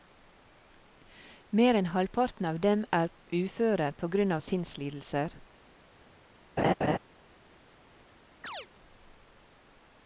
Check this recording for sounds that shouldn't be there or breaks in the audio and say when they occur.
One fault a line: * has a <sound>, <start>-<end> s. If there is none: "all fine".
* has a laugh, 6.6-7.0 s
* has a chirp, 8.4-8.7 s